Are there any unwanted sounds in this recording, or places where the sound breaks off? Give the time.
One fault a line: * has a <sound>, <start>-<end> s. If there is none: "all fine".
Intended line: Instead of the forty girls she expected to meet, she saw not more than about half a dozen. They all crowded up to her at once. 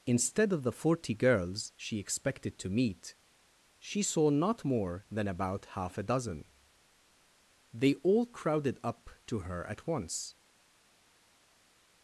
all fine